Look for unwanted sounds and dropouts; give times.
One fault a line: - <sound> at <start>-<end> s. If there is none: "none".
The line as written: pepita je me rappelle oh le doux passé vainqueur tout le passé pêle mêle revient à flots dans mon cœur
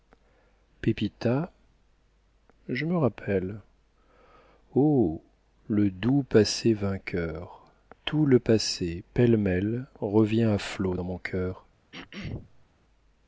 - throat clearing at 11.9-12.7 s